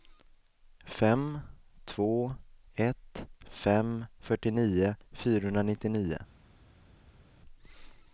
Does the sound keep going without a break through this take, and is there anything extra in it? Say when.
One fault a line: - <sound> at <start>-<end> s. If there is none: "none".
none